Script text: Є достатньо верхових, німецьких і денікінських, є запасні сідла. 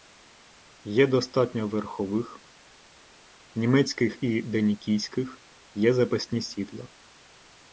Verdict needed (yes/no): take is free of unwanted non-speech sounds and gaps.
yes